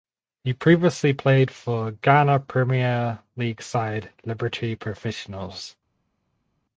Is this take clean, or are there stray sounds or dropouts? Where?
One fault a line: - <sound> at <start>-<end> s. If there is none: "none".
none